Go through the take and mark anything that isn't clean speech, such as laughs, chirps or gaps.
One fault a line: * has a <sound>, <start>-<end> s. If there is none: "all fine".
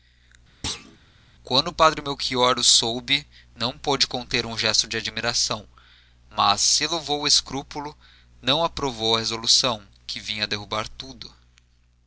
* has a thud, 0.6-1.0 s